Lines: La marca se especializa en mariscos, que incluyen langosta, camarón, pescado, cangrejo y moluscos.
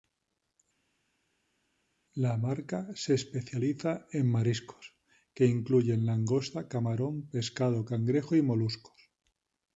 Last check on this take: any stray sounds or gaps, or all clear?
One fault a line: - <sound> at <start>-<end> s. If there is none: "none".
none